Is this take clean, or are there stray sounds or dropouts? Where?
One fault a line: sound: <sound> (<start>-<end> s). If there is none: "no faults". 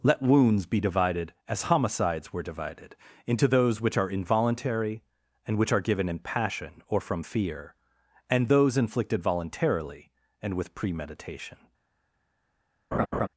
sound: laugh (12.9-13.3 s)